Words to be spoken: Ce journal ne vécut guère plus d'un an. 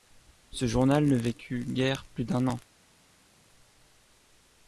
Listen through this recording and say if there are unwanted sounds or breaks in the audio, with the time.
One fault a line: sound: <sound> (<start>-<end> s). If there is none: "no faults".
no faults